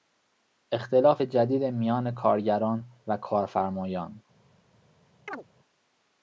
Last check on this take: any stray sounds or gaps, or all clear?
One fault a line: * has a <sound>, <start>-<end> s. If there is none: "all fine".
* has a chirp, 5.3-5.4 s